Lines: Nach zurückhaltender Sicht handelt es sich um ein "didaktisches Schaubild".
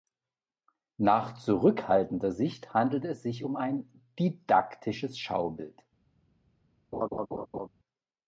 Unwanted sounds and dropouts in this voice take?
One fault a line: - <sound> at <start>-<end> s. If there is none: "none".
- laugh at 6.9-7.7 s